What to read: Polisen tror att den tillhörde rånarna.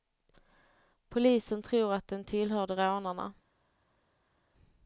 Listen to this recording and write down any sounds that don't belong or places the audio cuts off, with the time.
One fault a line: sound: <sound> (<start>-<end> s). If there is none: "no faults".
no faults